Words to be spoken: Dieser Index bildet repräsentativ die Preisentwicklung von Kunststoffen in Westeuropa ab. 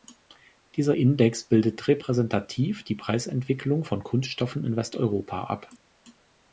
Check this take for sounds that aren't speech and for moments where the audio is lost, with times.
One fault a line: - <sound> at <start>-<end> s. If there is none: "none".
none